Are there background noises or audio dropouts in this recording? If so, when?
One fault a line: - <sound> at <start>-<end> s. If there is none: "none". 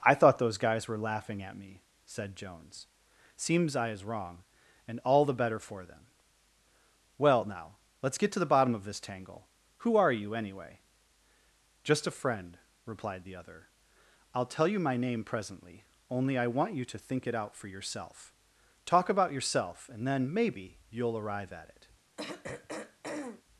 - throat clearing at 22.2-23.4 s